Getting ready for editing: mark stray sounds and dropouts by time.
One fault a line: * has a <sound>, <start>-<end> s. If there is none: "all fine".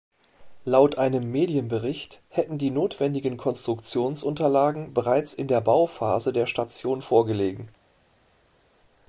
all fine